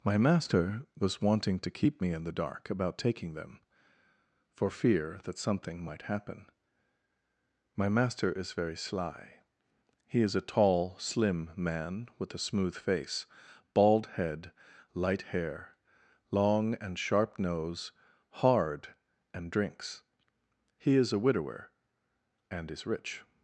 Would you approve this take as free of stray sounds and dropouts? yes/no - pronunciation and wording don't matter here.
yes